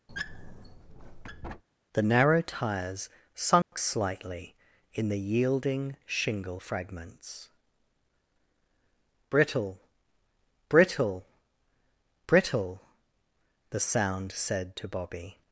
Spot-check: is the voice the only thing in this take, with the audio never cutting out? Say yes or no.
no